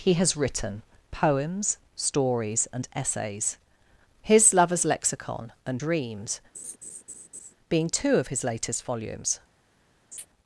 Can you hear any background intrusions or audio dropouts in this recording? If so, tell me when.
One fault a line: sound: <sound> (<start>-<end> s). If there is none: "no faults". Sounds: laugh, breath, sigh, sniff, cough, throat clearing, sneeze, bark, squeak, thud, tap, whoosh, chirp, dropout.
sound: laugh (6.5-7.5 s)
sound: laugh (10.1-10.3 s)